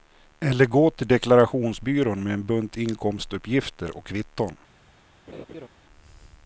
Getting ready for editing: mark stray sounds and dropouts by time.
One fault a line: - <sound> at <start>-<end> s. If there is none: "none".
- laugh at 5.3-5.7 s